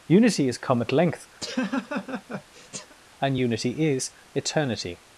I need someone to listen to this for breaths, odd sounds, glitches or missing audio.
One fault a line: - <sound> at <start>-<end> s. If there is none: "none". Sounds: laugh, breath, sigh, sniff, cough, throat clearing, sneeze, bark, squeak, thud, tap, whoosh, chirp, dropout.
- laugh at 1.4-3.0 s